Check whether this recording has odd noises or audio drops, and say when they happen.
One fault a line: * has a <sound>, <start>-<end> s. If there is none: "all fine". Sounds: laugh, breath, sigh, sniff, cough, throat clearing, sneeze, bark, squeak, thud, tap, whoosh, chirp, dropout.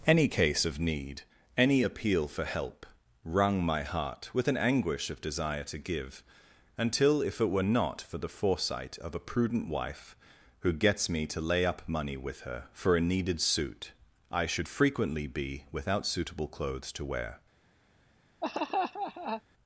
* has a laugh, 18.4-19.4 s